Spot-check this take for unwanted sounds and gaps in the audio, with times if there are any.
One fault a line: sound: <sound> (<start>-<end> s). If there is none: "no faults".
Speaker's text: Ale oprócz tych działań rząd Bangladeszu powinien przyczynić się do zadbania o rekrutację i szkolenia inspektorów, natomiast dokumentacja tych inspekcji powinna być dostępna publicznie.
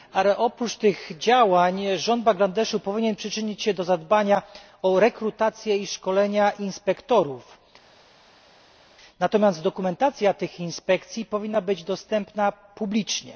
no faults